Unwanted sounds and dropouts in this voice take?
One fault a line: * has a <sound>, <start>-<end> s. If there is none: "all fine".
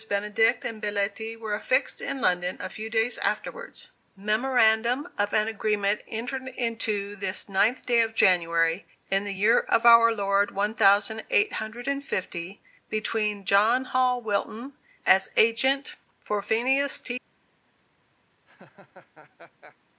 * has a laugh, 18.5-19.8 s